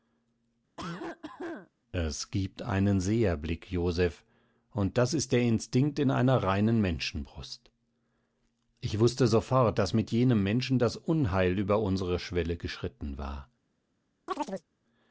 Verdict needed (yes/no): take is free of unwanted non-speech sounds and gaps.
no